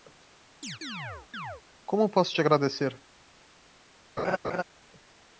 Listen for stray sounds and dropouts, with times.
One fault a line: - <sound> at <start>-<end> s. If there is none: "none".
- chirp at 0.6-1.6 s
- laugh at 4.2-4.6 s